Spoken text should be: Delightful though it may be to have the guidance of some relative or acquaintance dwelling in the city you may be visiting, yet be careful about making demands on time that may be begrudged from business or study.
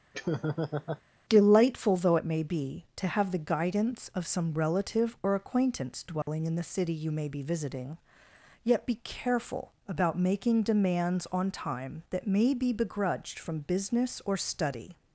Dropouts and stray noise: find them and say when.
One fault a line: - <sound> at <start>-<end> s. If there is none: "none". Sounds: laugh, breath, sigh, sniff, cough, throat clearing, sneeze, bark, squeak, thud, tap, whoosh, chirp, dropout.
- laugh at 0.1-1.0 s
- dropout at 6.2-6.3 s